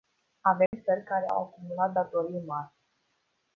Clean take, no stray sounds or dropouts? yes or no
no